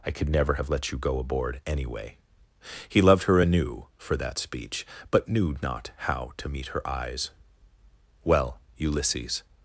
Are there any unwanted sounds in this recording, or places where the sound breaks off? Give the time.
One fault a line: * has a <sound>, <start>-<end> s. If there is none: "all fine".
all fine